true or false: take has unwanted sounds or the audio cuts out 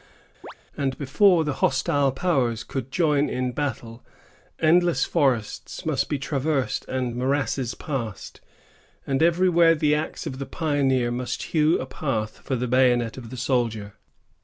true